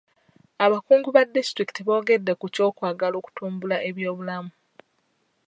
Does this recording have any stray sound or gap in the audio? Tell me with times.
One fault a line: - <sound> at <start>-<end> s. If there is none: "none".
none